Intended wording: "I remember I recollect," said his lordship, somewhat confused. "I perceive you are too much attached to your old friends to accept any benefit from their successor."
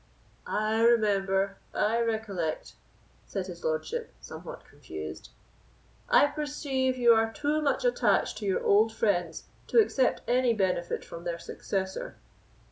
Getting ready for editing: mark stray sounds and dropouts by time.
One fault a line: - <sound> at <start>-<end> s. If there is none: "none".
none